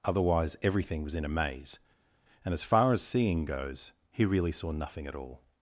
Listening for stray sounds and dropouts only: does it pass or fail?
pass